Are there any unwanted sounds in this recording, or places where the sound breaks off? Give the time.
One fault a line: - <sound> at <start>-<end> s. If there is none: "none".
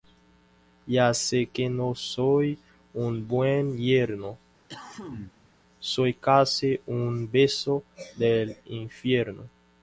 - cough at 4.7-5.5 s